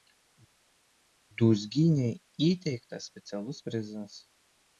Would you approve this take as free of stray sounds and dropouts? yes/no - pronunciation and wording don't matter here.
yes